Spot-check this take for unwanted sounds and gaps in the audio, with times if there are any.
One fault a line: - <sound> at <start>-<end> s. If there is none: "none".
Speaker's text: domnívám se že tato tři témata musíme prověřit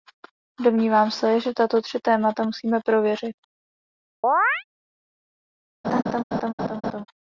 - chirp at 4.2-4.6 s
- laugh at 5.8-7.1 s